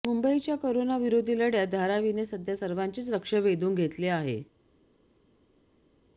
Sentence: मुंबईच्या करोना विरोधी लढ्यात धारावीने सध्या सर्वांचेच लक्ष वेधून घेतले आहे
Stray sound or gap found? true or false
false